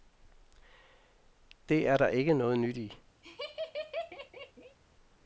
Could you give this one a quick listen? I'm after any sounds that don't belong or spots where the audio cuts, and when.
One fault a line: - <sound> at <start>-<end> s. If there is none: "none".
- laugh at 3.2-4.8 s